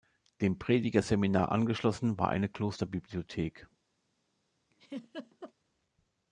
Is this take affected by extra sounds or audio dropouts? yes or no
yes